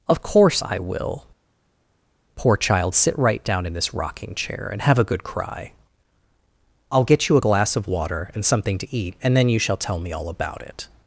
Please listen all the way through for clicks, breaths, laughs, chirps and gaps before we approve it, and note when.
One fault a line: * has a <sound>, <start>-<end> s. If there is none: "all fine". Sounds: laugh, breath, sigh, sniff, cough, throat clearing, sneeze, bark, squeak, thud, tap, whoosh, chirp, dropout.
all fine